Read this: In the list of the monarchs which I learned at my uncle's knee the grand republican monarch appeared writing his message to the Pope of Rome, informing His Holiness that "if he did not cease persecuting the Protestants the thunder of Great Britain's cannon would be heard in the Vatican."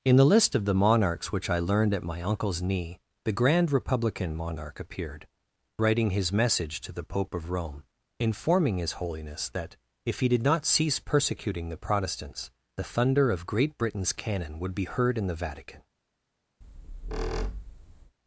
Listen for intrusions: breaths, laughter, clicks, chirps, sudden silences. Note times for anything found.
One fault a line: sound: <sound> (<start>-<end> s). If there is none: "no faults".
sound: squeak (16.6-18.1 s)